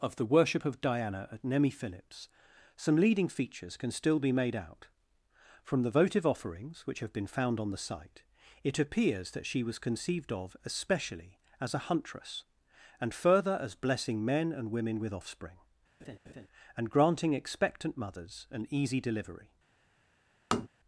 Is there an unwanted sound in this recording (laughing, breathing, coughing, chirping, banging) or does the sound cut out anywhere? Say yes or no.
yes